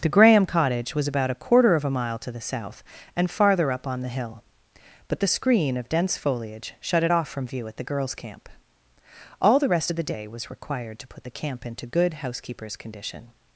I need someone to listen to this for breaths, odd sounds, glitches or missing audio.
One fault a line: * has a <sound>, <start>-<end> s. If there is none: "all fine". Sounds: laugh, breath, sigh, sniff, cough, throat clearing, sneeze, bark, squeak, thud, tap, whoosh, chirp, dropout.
all fine